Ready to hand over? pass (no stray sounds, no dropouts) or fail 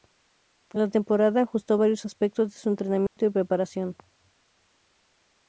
fail